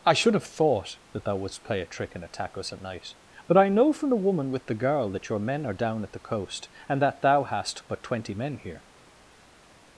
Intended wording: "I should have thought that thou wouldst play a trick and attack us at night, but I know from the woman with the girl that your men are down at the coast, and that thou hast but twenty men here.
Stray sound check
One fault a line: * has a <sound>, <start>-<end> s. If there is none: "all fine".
all fine